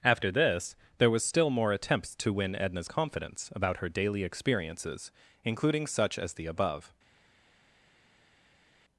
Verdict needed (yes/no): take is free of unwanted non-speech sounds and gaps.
yes